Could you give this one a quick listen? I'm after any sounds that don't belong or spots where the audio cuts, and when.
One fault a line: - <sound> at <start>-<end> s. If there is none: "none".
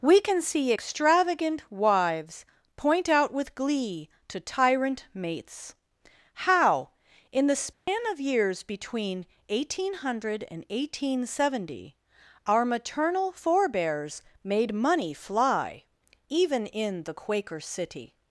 - dropout at 7.7-7.9 s